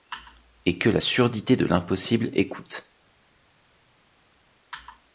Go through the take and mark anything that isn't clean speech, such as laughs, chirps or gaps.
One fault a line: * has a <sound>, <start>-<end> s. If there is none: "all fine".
all fine